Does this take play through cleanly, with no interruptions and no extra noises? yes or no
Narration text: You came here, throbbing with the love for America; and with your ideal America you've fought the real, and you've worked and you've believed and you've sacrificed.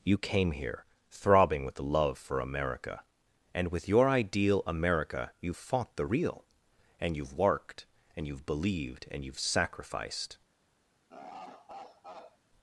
no